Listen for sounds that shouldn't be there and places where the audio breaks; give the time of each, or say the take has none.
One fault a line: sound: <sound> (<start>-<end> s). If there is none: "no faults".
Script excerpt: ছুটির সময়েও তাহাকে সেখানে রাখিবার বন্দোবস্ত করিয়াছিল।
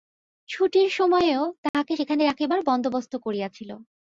sound: dropout (1.7-1.7 s)